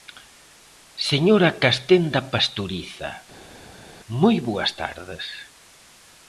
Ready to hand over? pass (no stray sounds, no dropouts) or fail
pass